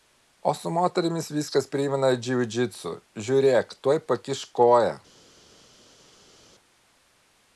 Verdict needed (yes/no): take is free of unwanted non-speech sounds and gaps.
yes